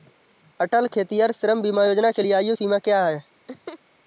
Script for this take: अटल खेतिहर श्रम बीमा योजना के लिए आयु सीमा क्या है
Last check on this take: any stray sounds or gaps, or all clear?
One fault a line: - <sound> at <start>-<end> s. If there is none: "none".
- laugh at 3.5-3.8 s